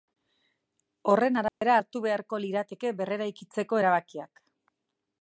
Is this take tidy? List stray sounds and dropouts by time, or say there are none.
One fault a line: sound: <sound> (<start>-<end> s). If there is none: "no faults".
sound: dropout (1.5-1.6 s)